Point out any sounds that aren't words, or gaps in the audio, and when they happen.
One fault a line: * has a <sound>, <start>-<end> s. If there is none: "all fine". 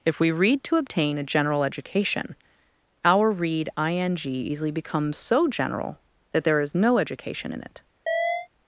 * has a chirp, 8.1-8.5 s